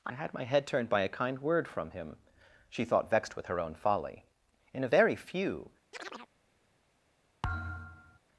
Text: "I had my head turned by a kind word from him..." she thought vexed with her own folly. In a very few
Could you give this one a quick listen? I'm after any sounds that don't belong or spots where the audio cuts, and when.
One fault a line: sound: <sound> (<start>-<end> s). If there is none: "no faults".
sound: chirp (5.9-6.3 s)
sound: thud (7.4-8.2 s)